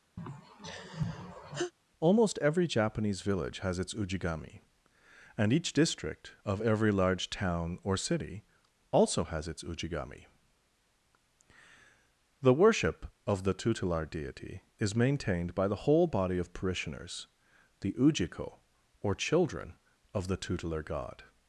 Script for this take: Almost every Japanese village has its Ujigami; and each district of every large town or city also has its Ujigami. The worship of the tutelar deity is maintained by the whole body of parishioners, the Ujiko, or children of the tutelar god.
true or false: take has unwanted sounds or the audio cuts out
true